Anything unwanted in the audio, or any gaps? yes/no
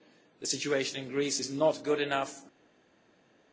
no